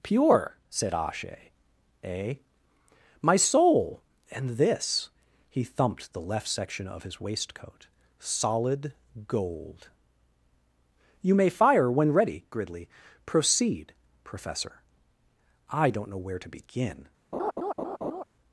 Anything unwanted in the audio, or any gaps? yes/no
yes